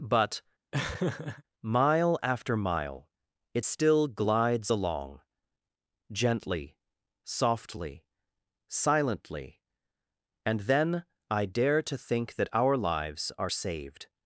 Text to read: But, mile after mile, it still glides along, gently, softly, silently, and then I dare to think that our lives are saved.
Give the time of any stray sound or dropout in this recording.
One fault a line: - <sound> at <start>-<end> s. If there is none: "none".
- laugh at 0.7-1.4 s